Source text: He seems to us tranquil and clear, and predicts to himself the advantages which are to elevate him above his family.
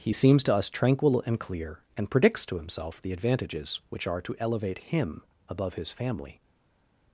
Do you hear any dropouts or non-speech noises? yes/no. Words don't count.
no